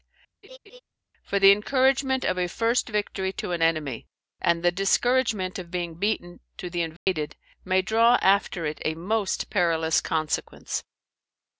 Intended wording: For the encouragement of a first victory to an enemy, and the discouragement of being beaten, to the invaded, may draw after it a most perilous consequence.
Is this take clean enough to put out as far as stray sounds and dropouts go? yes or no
no